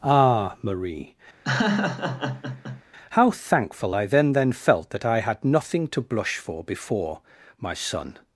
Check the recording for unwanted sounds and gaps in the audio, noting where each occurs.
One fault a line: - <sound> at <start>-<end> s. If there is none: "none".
- laugh at 1.4-2.8 s